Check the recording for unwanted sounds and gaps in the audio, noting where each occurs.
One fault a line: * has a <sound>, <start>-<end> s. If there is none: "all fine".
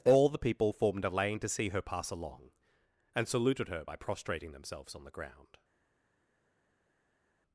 all fine